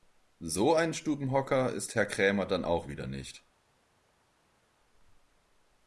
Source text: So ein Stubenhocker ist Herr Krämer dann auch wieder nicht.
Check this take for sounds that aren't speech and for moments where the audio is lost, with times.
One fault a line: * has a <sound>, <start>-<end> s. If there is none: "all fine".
all fine